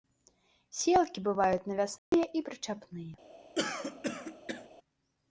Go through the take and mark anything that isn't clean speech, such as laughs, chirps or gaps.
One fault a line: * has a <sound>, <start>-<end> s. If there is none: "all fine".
* has a dropout, 2.0-2.1 s
* has a throat clearing, 3.6-4.7 s